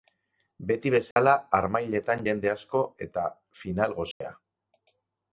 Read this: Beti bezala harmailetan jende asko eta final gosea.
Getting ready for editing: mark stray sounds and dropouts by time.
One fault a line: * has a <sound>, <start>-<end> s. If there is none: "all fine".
* has a dropout, 1.1-1.2 s
* has a dropout, 4.1-4.2 s